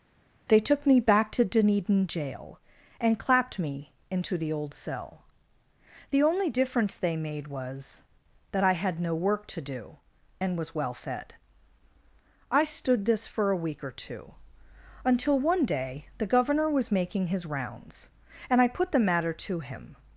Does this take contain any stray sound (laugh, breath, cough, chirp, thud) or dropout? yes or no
no